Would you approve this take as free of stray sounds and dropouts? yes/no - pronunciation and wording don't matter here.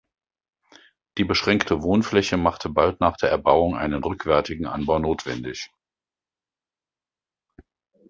yes